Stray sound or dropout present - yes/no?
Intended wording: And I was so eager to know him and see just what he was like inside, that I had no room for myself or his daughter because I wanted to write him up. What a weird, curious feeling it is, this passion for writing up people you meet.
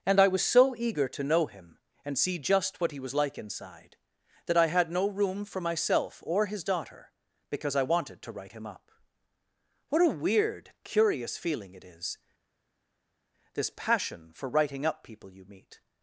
no